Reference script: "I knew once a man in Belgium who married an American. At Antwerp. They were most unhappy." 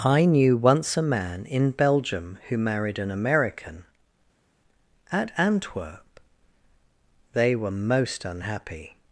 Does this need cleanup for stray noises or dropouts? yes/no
no